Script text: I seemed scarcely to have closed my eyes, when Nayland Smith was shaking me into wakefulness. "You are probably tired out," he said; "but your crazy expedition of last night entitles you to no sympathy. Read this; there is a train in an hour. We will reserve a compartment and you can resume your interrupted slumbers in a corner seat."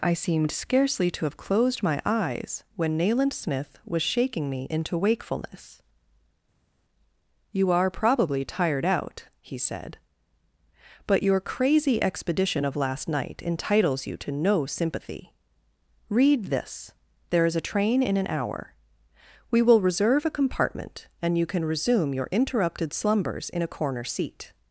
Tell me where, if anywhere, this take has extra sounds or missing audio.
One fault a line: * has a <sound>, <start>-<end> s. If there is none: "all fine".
all fine